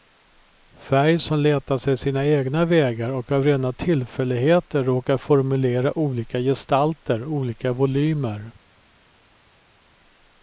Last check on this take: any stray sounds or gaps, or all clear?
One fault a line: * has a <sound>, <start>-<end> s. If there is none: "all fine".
all fine